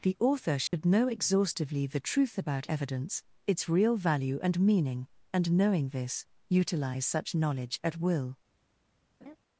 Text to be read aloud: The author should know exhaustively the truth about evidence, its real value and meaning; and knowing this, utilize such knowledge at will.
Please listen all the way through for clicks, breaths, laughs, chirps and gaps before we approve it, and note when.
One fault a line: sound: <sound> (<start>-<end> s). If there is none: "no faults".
sound: dropout (0.7-0.7 s)
sound: laugh (9.2-9.4 s)